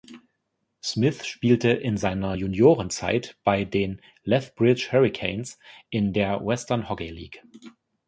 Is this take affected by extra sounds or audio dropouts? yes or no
no